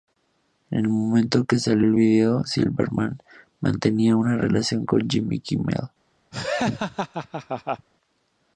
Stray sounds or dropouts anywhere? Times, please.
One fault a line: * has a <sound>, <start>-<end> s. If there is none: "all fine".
* has a laugh, 6.3-7.9 s